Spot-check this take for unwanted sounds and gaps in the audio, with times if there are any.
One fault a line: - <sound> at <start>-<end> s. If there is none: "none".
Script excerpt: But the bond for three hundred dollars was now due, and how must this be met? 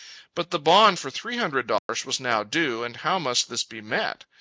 - dropout at 1.8-1.9 s